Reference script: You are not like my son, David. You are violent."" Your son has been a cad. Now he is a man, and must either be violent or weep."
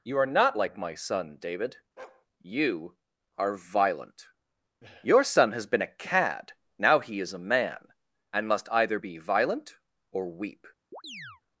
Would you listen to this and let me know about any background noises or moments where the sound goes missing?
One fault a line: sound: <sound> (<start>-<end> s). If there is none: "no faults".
sound: bark (2.0-2.3 s)
sound: chirp (10.9-11.4 s)